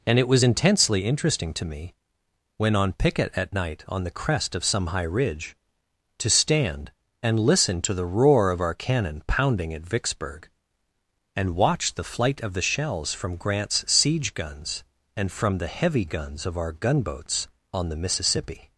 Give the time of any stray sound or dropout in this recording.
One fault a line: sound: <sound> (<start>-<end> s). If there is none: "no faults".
no faults